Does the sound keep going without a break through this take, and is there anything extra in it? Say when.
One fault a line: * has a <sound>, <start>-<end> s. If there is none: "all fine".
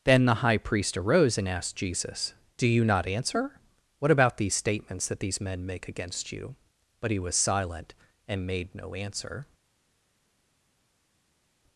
all fine